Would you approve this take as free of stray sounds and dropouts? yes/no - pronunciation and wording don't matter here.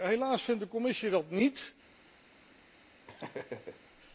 no